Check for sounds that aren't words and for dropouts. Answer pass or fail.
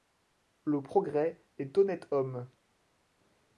pass